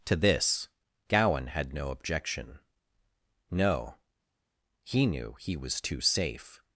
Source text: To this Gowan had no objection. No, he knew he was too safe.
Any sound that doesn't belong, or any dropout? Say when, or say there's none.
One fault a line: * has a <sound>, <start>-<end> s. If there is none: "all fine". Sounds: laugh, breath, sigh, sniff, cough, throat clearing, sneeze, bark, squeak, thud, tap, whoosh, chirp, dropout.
all fine